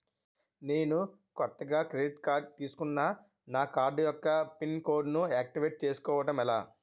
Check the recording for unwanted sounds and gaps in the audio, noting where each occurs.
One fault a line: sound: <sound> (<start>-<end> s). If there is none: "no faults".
no faults